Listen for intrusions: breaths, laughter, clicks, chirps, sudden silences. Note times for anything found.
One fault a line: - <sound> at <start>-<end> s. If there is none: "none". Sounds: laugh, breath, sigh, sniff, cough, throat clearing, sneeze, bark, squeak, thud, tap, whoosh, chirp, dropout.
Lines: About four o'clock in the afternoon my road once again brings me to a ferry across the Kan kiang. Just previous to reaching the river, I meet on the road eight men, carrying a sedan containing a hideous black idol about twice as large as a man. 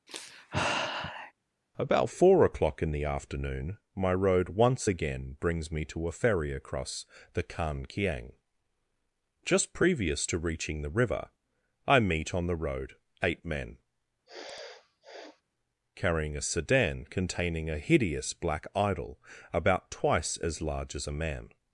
- sigh at 0.1-1.3 s
- sniff at 14.3-15.4 s